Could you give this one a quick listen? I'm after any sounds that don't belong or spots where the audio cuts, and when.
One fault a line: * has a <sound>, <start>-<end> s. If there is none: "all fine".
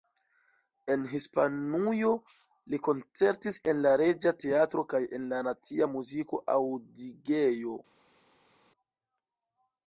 all fine